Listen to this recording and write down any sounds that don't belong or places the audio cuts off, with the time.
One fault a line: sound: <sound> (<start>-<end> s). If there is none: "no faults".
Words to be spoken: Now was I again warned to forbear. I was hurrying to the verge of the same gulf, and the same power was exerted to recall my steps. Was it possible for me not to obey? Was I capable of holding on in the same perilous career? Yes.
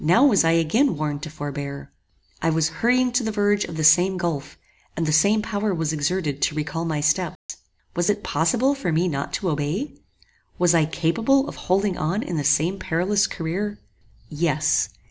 sound: dropout (7.4-7.5 s)